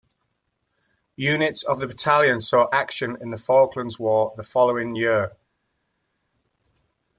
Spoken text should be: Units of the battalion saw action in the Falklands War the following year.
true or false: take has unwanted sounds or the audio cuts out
false